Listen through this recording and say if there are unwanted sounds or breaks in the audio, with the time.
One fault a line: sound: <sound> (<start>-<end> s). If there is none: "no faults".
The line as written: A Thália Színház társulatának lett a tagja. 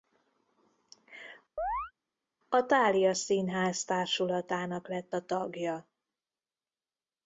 sound: chirp (1.6-1.9 s)